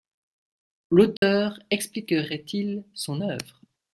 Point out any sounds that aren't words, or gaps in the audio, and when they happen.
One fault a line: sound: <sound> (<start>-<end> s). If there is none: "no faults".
sound: dropout (1.2-1.2 s)